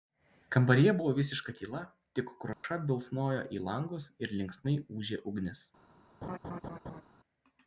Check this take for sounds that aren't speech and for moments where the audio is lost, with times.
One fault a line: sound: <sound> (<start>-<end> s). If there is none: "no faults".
sound: dropout (2.5-2.6 s)
sound: laugh (6.2-7.0 s)